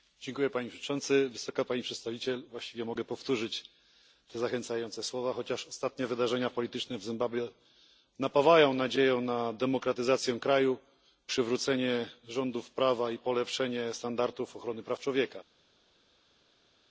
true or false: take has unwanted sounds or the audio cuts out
false